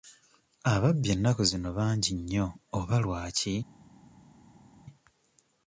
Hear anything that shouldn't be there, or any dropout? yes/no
no